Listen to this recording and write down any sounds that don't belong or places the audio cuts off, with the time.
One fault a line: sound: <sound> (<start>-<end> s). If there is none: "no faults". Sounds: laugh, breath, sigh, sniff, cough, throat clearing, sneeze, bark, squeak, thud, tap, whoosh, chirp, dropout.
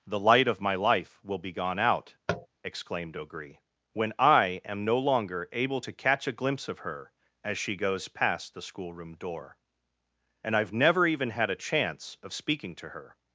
sound: tap (2.3-2.5 s)